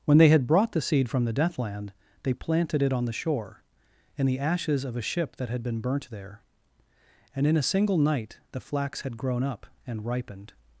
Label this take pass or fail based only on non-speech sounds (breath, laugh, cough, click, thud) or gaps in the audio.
pass